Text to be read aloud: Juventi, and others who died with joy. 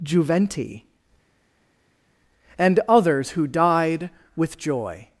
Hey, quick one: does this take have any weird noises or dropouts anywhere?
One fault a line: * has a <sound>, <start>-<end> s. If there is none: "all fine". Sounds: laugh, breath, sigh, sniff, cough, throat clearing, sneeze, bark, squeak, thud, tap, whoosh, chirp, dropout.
all fine